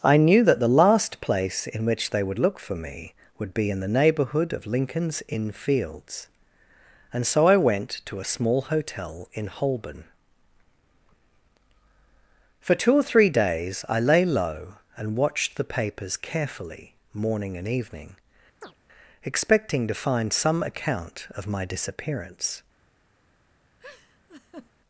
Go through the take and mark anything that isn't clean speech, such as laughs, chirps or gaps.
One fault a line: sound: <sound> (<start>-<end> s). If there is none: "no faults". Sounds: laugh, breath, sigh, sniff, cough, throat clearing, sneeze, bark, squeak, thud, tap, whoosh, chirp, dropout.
sound: chirp (18.6-18.8 s)
sound: laugh (23.8-24.7 s)